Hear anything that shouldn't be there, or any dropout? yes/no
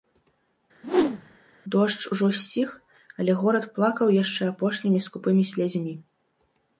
yes